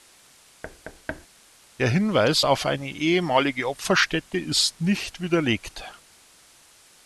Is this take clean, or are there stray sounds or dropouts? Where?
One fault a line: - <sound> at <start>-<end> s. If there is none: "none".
- thud at 0.6-1.3 s